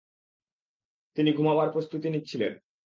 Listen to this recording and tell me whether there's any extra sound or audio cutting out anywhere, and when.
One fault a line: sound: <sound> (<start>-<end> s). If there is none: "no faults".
no faults